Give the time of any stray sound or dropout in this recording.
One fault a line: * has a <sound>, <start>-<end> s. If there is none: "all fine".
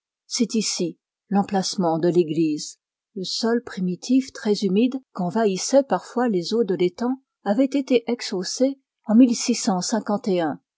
all fine